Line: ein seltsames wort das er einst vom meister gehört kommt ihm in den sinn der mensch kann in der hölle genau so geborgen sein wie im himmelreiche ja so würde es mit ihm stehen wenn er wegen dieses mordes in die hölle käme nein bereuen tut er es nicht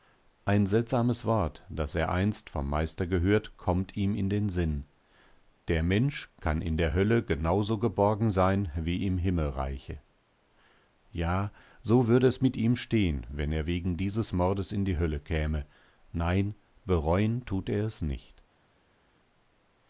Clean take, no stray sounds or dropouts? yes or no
yes